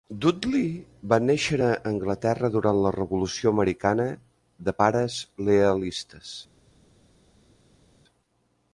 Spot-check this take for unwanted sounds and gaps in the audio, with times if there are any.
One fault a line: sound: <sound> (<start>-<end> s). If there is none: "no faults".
no faults